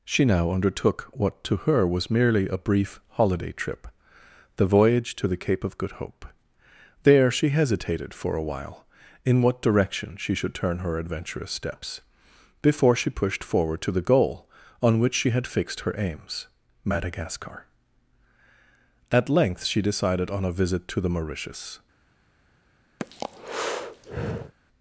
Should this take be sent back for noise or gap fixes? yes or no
yes